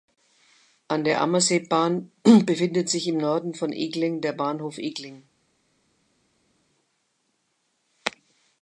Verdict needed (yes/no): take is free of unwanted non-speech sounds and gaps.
yes